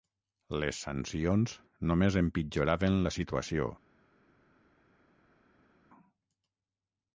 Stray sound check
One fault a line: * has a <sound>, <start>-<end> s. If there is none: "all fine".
all fine